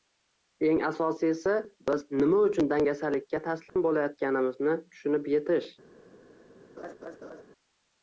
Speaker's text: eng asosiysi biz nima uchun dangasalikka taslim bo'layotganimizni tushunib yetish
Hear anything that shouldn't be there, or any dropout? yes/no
yes